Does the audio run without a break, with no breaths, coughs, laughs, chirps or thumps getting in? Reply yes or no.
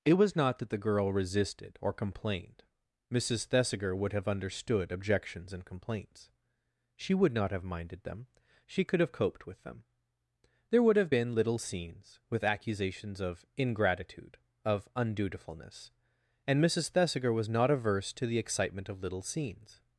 yes